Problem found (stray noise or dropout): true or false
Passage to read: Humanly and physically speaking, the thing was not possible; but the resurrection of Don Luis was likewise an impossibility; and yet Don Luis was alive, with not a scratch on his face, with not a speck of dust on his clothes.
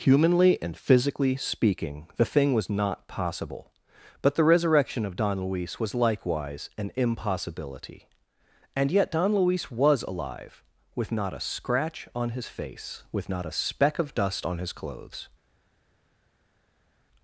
false